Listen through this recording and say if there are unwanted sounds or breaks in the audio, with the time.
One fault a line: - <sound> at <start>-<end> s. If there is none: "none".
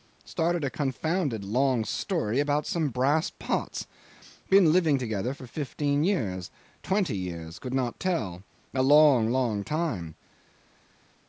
none